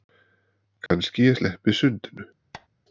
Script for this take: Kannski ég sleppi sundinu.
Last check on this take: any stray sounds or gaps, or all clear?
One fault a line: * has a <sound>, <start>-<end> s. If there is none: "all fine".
* has a dropout, 0.9-0.9 s
* has a squeak, 2.5-2.7 s